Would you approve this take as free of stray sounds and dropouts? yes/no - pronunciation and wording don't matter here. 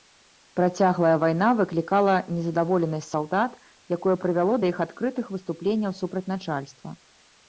yes